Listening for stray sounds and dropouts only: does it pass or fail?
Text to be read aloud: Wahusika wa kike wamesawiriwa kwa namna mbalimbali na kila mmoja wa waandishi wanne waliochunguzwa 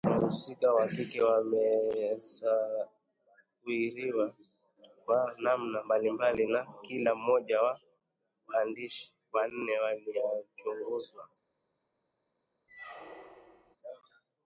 fail